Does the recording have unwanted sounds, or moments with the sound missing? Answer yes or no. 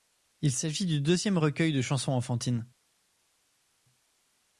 no